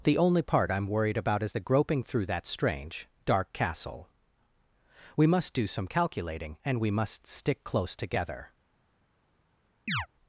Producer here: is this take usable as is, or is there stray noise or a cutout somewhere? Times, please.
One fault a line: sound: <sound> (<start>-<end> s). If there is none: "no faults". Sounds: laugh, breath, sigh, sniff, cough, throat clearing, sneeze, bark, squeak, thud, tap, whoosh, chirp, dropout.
sound: chirp (9.9-10.1 s)